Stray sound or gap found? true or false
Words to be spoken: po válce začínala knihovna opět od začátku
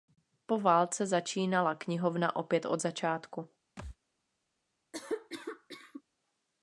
true